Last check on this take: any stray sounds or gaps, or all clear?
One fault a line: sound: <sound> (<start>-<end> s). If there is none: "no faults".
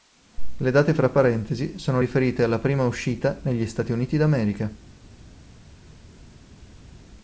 no faults